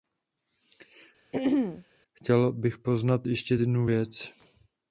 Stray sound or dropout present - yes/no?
yes